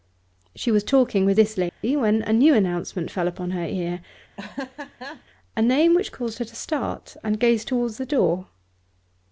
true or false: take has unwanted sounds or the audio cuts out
true